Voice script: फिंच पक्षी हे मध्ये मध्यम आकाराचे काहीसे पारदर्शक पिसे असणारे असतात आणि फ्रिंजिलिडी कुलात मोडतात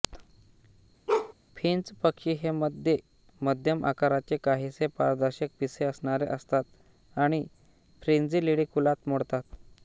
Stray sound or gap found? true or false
true